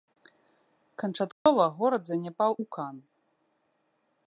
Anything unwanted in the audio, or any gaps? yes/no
yes